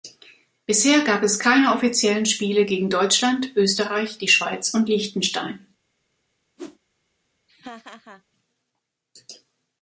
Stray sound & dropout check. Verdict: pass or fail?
fail